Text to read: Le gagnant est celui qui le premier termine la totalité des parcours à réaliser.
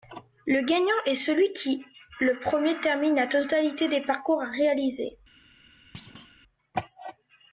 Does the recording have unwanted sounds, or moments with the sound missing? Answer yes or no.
yes